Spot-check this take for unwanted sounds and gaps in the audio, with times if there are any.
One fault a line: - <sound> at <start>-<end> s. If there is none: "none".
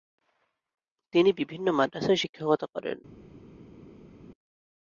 none